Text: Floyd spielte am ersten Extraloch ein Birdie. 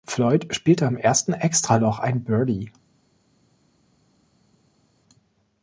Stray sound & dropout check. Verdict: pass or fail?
pass